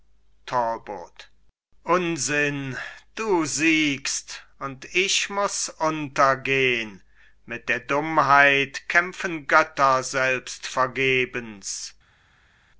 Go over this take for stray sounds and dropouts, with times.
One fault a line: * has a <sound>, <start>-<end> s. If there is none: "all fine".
all fine